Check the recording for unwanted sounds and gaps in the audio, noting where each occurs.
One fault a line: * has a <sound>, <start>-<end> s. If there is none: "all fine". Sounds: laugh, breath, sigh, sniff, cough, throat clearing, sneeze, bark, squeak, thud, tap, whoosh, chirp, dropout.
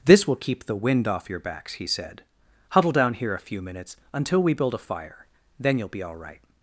all fine